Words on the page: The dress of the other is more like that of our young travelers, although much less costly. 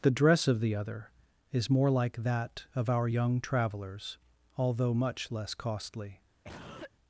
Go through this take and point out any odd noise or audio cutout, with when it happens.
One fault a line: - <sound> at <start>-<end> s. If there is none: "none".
- cough at 6.4-6.9 s